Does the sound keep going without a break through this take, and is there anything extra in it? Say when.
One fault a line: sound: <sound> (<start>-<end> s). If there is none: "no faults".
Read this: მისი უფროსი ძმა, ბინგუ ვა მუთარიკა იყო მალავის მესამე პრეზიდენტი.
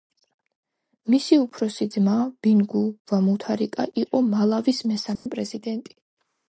sound: dropout (5.2-5.3 s)